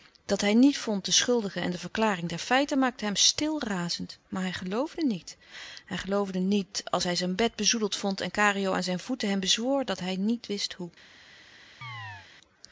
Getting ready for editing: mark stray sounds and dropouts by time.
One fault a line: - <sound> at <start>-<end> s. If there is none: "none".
- chirp at 11.8-12.3 s